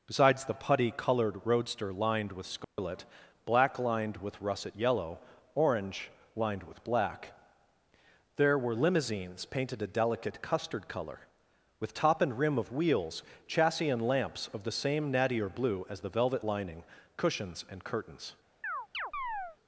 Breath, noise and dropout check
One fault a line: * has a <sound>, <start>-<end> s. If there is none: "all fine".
* has a dropout, 2.6-2.8 s
* has a chirp, 18.6-19.6 s